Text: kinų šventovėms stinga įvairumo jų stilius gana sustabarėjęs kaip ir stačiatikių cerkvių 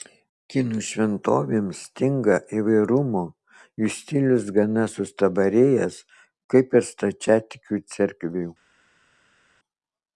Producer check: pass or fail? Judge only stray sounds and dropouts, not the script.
pass